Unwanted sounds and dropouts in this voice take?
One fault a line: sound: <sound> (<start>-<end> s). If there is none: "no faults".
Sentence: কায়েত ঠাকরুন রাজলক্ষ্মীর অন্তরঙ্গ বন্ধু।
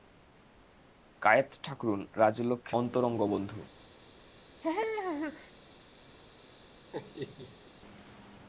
sound: laugh (4.6-5.5 s)
sound: laugh (6.9-7.7 s)